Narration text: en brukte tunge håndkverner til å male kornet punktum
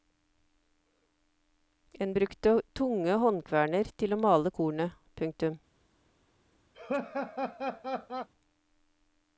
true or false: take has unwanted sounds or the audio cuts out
true